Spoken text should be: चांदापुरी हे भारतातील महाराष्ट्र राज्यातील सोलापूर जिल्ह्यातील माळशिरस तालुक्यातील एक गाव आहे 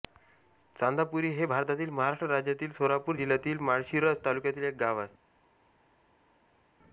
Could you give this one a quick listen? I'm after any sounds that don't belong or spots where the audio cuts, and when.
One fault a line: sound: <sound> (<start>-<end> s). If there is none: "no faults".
no faults